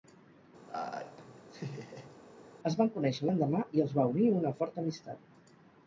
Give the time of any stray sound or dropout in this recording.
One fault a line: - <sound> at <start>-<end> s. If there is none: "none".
- laugh at 0.7-2.2 s